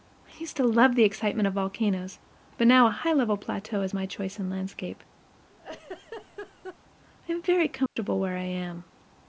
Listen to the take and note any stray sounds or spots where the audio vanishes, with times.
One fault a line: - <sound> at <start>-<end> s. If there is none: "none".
- laugh at 5.5-6.8 s
- dropout at 7.9-8.0 s